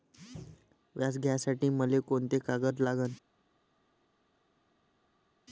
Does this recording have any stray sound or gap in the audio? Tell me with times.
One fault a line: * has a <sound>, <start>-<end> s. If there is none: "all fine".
all fine